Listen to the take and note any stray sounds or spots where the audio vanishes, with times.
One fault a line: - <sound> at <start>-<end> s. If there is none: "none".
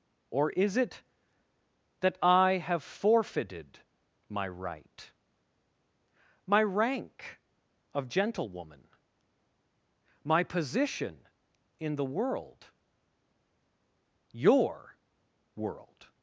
none